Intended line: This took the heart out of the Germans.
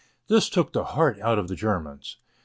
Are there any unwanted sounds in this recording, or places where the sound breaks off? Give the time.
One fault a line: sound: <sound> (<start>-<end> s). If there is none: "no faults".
no faults